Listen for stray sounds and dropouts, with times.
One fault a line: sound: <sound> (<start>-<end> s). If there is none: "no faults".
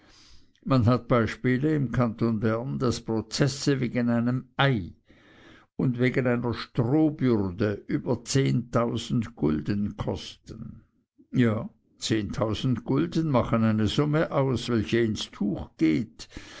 no faults